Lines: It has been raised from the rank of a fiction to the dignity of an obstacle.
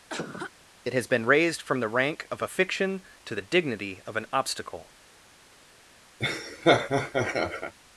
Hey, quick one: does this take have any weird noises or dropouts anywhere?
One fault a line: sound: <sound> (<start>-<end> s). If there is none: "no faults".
sound: cough (0.1-0.5 s)
sound: laugh (6.2-7.7 s)